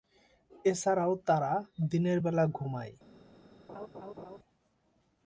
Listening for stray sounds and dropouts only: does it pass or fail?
fail